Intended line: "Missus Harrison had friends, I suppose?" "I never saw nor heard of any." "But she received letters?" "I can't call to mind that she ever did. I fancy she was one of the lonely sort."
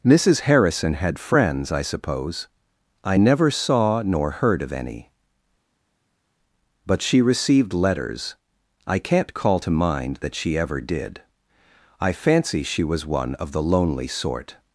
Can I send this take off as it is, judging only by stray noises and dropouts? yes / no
yes